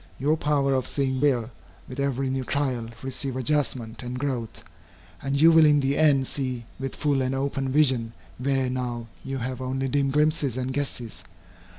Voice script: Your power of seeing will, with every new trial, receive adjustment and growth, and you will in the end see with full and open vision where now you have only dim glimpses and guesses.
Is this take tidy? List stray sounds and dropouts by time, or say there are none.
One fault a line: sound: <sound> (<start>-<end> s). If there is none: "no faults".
no faults